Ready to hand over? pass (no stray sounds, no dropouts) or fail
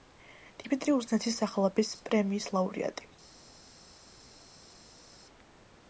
pass